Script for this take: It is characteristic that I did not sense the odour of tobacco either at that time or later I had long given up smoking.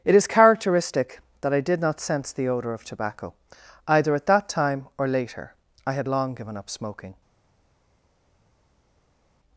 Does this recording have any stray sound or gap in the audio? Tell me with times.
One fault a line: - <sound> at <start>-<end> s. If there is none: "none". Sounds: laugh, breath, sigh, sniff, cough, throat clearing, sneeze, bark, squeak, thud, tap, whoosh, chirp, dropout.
none